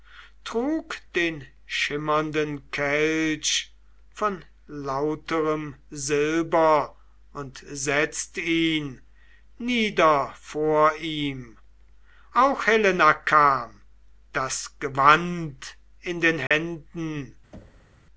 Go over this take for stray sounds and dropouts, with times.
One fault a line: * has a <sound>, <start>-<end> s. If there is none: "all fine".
* has a dropout, 16.5-16.5 s
* has a thud, 17.5-18.0 s